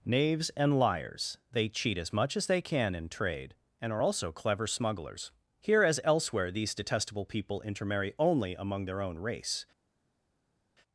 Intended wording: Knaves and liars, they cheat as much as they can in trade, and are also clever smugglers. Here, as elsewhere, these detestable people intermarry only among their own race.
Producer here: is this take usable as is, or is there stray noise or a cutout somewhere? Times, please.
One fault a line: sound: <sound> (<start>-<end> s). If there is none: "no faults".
no faults